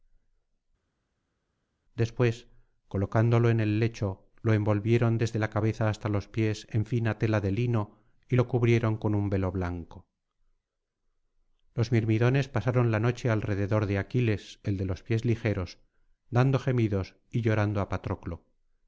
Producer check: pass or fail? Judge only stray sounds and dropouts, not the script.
pass